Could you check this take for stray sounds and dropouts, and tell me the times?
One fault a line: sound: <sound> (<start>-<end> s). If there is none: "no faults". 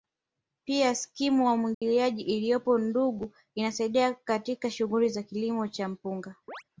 sound: dropout (1.7-1.8 s)
sound: chirp (6.5-6.6 s)